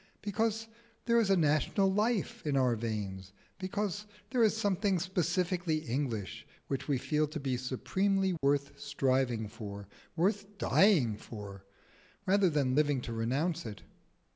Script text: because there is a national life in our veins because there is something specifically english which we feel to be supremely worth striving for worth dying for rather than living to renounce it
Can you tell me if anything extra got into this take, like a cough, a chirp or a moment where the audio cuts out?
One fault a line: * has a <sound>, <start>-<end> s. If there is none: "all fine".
* has a dropout, 8.4-8.4 s